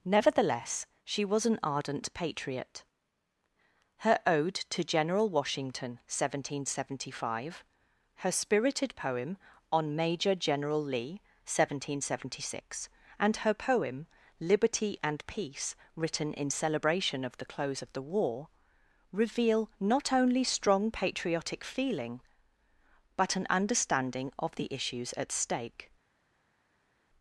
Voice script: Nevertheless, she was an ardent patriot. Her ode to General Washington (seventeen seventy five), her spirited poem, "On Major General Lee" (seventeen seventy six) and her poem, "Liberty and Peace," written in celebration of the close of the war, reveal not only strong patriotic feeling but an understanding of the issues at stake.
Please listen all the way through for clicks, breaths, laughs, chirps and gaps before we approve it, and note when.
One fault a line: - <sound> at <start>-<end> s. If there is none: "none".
none